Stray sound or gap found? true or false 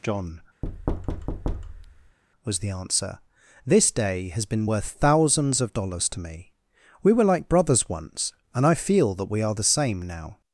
true